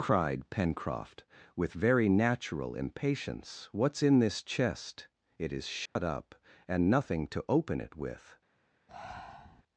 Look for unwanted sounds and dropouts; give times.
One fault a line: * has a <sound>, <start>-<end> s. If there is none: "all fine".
* has a dropout, 5.9-6.0 s
* has a breath, 8.9-9.6 s